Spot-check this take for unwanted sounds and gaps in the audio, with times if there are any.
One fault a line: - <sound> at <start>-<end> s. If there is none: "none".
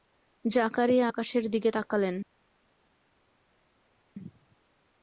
none